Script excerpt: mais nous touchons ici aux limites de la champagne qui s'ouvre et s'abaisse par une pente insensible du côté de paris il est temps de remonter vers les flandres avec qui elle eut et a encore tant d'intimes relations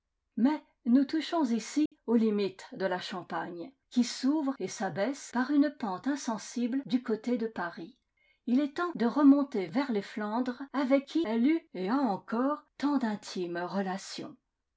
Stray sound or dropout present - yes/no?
yes